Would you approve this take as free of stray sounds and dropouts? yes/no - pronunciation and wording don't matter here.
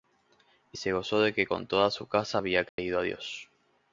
no